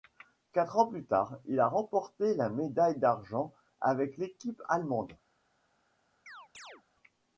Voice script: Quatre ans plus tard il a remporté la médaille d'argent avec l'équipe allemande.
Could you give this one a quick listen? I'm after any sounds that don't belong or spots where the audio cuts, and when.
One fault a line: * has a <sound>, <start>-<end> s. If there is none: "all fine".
* has a chirp, 6.3-6.8 s